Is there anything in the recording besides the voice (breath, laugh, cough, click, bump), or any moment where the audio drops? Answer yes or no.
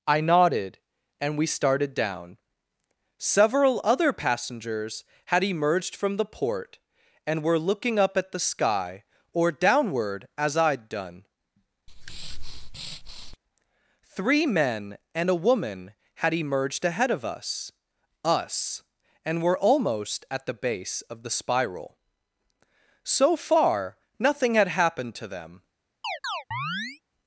yes